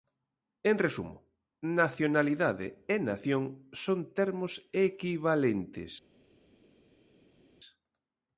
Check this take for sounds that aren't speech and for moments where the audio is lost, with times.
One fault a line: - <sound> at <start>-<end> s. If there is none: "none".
none